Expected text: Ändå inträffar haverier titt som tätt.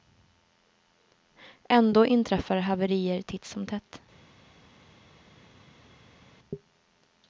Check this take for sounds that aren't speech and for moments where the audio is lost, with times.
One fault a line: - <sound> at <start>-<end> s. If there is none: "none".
none